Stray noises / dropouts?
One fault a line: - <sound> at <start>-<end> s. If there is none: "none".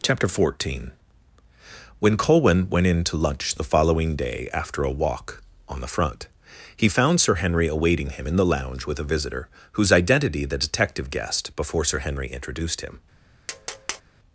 - tap at 13.5-14.0 s